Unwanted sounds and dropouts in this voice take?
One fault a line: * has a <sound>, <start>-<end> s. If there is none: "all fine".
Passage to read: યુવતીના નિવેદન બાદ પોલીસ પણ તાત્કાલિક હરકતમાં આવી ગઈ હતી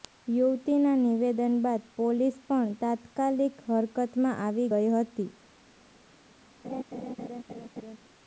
* has a laugh, 6.6-8.0 s